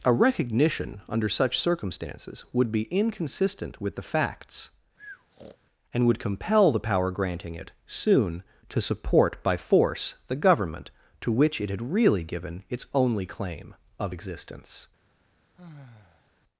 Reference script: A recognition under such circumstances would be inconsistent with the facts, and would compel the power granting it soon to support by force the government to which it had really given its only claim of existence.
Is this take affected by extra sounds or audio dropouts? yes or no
yes